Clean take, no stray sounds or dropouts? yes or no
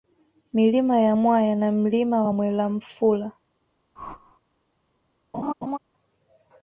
no